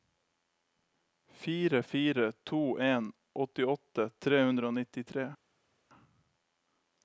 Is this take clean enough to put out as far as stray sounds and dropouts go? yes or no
yes